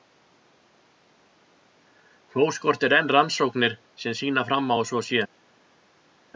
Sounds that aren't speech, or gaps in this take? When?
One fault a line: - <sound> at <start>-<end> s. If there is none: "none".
none